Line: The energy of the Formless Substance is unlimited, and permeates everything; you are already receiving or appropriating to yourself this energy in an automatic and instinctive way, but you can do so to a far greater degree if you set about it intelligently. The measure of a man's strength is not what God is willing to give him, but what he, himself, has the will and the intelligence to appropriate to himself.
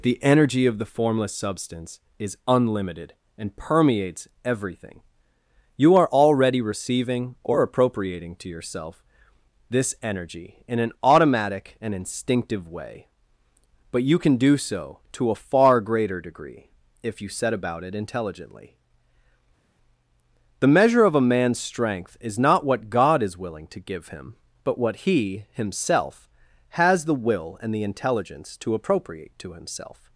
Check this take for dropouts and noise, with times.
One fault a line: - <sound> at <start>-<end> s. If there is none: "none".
none